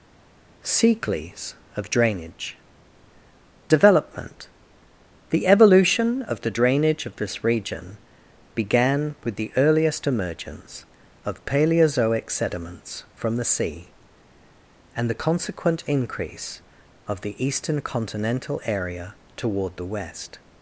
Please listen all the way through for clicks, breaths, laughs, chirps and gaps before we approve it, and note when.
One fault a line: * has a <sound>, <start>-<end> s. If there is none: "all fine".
all fine